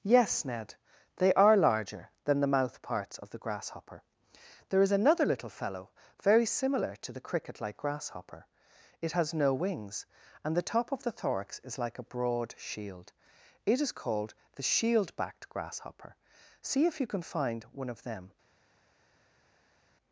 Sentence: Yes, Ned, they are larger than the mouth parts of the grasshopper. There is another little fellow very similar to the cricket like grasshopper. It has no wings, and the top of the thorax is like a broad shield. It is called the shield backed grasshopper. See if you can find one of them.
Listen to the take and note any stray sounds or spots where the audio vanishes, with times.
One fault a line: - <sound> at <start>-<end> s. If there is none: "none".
none